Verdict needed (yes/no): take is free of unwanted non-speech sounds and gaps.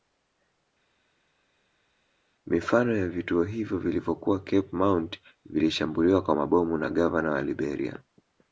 yes